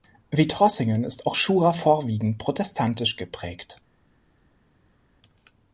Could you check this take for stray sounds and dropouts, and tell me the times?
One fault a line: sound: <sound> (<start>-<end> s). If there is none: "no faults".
no faults